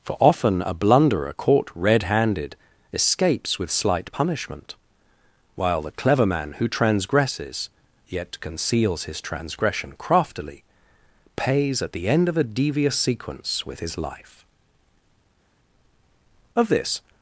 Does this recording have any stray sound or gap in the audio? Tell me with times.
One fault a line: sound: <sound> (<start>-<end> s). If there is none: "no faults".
no faults